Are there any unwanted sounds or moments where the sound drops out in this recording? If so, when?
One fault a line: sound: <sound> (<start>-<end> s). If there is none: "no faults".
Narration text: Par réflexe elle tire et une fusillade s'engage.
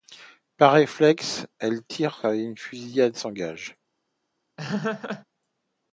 sound: laugh (4.6-5.3 s)